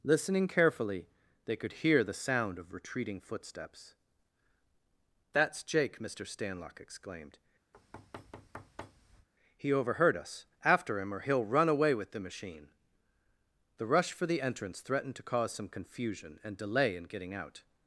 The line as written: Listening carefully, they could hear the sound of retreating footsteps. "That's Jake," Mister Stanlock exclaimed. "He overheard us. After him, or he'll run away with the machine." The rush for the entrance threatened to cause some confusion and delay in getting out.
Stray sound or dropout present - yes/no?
yes